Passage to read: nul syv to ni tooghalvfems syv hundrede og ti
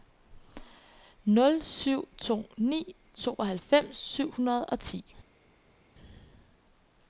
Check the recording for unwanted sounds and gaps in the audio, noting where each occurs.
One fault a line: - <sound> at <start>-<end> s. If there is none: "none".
none